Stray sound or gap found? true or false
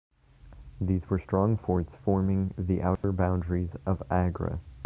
true